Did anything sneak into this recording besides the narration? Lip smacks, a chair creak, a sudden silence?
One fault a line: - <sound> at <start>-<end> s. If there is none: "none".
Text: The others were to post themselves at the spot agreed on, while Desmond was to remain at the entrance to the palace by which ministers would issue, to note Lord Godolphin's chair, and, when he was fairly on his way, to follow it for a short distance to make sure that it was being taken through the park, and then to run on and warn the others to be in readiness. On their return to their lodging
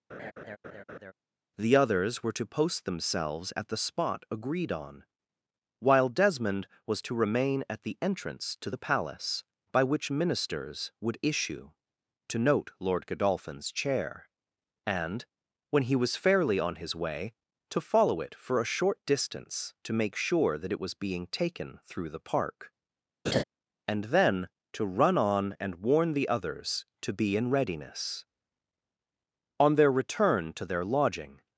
- laugh at 0.1-1.1 s
- laugh at 23.3-23.4 s